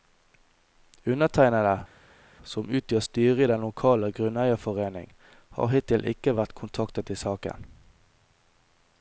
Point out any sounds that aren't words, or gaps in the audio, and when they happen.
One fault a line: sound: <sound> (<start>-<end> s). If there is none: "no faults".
no faults